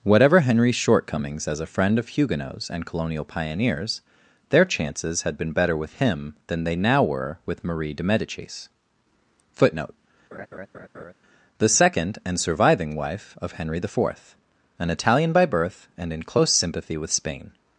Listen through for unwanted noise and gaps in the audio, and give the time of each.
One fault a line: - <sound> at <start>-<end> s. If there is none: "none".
- laugh at 10.3-11.1 s